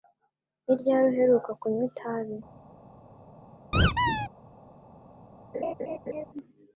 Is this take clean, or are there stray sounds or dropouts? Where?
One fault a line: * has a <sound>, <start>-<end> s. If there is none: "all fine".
* has a squeak, 3.7-4.3 s
* has a laugh, 5.5-6.3 s